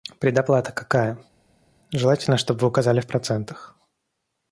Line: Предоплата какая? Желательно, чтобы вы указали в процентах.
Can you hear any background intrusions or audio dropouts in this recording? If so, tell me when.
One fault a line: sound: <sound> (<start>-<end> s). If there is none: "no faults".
no faults